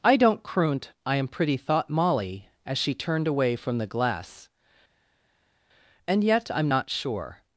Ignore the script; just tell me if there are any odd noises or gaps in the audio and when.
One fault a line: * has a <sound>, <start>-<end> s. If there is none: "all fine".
all fine